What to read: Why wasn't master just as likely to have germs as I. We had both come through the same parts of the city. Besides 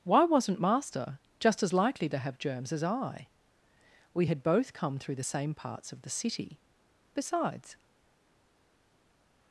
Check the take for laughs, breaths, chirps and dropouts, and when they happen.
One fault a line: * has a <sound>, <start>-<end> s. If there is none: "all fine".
all fine